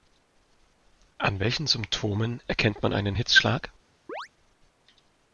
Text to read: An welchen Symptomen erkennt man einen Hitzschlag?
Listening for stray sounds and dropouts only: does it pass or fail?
fail